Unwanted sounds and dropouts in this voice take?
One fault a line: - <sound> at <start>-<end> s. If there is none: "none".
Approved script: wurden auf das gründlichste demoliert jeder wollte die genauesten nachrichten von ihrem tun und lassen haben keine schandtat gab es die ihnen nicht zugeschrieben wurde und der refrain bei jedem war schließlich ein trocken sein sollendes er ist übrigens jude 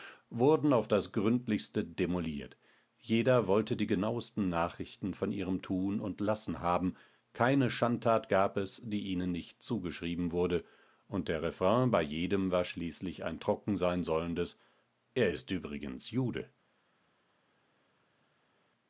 none